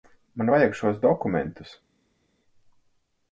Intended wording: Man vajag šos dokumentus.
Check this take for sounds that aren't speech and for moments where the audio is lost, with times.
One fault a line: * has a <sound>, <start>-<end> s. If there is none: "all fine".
all fine